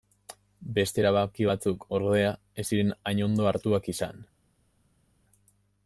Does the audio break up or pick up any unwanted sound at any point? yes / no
no